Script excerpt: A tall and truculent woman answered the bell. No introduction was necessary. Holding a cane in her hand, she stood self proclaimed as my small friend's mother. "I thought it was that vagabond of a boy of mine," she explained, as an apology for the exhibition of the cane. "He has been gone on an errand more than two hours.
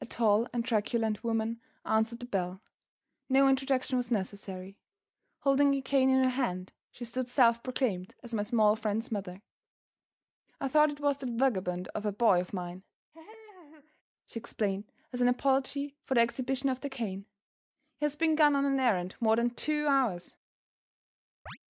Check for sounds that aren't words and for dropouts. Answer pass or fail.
fail